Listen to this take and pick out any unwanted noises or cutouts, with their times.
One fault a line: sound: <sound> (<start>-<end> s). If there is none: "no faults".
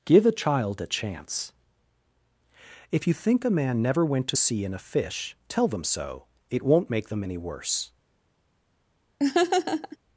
sound: laugh (9.2-10.0 s)